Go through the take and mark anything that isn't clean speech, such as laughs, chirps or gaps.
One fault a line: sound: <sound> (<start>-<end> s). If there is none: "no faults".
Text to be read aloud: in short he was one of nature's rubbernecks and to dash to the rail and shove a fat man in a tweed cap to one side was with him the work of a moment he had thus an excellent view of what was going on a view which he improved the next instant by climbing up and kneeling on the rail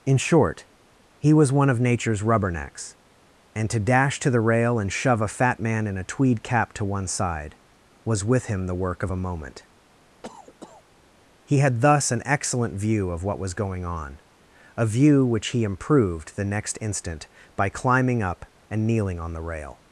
sound: cough (10.2-10.8 s)